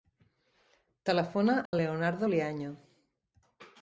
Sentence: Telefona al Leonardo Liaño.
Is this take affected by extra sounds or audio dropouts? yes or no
yes